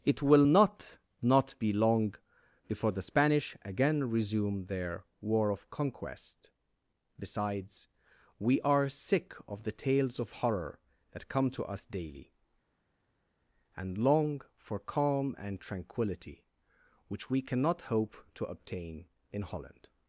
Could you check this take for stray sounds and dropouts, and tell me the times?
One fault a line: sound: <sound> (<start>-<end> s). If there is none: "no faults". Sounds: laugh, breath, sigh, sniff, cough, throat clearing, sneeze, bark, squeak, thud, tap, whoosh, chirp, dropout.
no faults